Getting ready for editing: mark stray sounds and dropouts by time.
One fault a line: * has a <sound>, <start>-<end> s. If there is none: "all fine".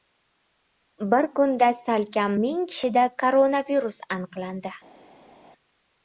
all fine